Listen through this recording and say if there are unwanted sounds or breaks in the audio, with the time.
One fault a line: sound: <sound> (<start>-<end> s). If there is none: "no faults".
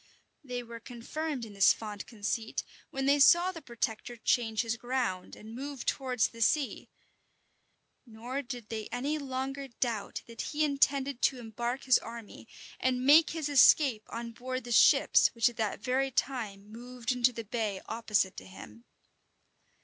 no faults